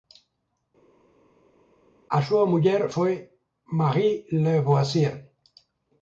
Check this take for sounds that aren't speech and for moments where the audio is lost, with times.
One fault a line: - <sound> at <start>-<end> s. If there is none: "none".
none